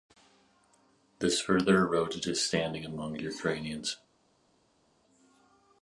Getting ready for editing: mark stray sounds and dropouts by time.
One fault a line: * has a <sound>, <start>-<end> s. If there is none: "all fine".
all fine